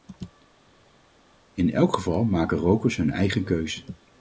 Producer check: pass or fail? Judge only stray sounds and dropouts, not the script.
pass